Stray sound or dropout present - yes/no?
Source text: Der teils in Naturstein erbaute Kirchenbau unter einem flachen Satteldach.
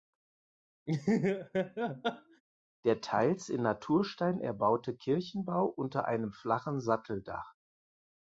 yes